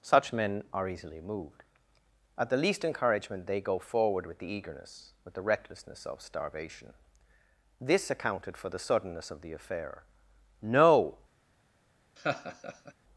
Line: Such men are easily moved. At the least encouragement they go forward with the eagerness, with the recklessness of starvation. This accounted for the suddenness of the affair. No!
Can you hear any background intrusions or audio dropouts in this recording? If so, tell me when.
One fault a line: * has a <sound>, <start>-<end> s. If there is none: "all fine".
* has a laugh, 12.2-12.9 s